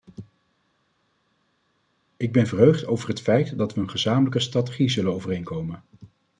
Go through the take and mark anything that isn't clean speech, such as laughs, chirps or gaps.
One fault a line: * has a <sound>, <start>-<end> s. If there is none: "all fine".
all fine